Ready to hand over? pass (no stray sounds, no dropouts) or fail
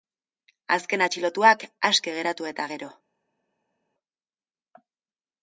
pass